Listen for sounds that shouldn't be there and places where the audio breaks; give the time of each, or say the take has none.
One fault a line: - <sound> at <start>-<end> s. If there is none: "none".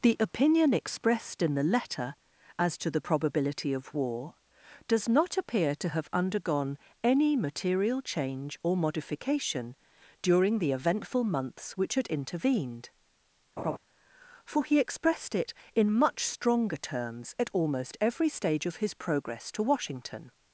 - laugh at 13.6-13.8 s